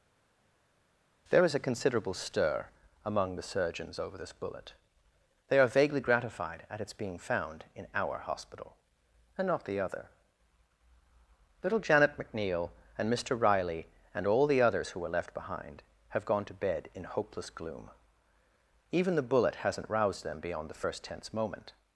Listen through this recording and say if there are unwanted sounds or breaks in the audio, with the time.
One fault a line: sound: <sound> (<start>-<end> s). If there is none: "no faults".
no faults